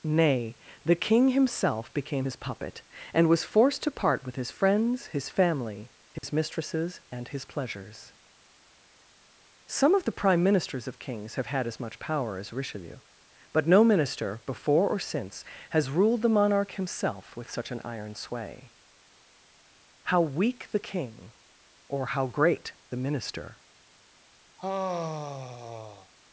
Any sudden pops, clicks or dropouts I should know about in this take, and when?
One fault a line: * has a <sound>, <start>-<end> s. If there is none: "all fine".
* has a dropout, 6.2-6.2 s
* has a sigh, 24.6-26.1 s